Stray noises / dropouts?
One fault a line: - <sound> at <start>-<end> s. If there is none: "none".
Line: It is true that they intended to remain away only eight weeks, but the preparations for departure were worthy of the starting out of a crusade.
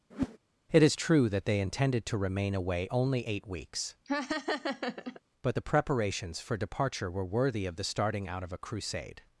- whoosh at 0.1-0.4 s
- laugh at 4.1-5.2 s